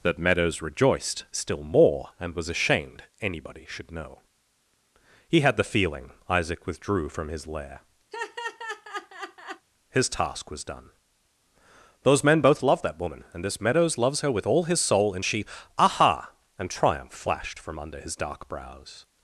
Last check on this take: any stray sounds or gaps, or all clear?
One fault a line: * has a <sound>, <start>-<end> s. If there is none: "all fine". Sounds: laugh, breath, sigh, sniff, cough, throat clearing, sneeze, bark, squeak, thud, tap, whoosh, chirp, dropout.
* has a laugh, 8.1-9.7 s